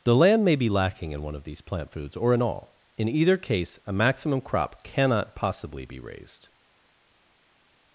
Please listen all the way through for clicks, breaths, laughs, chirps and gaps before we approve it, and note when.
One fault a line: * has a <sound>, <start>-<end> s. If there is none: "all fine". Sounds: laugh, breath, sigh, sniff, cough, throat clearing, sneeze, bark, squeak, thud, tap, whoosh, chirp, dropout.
all fine